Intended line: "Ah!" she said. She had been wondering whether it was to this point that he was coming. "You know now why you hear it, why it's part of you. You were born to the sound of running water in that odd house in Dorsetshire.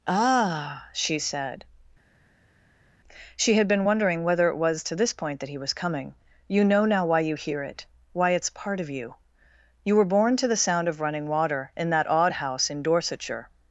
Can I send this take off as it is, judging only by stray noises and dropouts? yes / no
yes